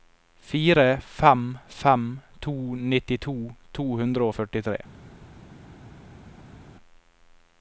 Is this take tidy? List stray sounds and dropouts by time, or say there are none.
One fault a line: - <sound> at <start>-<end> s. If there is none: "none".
none